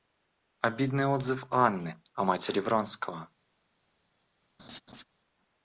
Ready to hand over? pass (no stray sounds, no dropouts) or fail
fail